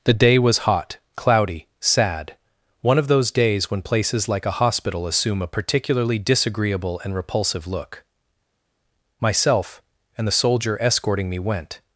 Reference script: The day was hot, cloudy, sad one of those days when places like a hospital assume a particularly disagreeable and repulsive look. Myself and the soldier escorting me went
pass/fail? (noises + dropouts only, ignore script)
pass